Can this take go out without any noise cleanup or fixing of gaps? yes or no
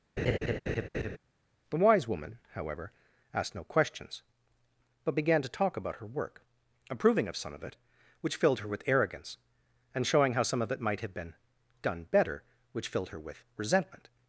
no